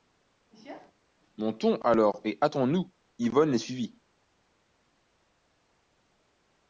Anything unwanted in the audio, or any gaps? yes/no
no